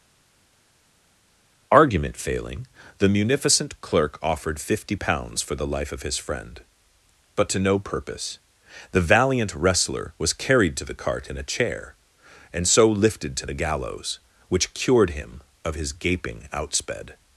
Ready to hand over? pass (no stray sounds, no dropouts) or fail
pass